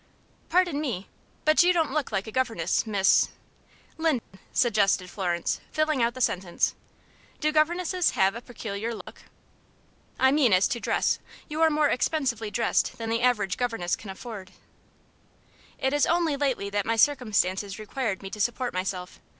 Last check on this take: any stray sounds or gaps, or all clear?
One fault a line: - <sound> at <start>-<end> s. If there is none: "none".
- dropout at 4.2-4.3 s
- dropout at 9.0-9.1 s